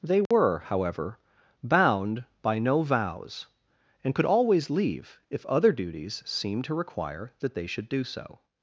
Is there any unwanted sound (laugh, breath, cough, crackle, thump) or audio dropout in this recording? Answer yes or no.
yes